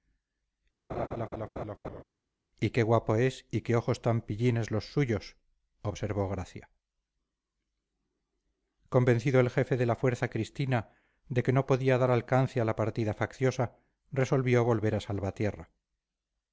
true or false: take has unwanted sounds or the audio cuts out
true